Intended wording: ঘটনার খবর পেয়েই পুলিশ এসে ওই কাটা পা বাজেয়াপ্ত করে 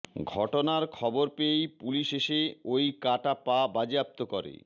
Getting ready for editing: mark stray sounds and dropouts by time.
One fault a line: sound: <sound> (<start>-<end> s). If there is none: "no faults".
no faults